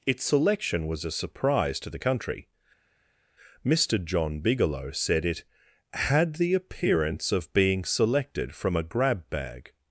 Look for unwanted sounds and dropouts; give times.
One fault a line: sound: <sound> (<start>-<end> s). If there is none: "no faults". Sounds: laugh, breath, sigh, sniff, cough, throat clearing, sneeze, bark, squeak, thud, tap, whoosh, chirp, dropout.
no faults